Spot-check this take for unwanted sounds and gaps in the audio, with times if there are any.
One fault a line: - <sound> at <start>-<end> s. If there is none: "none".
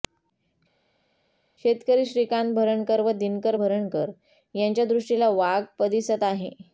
none